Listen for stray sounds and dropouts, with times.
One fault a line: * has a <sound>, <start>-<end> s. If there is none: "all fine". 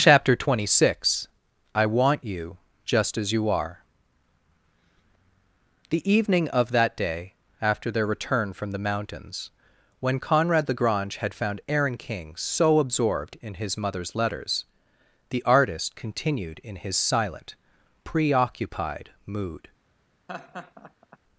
* has a laugh, 20.3-21.2 s